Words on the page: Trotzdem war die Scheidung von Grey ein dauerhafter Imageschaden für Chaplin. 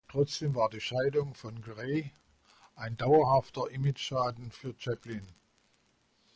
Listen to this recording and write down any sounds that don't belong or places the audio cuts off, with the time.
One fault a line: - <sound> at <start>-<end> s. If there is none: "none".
none